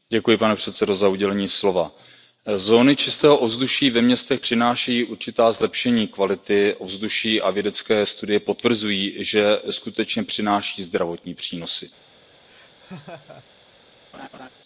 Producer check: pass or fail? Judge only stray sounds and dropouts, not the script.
fail